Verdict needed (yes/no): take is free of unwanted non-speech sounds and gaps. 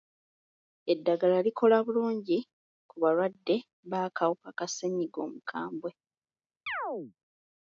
no